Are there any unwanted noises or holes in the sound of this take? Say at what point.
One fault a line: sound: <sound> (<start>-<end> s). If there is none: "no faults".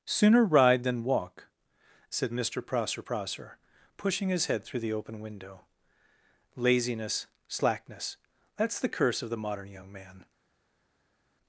no faults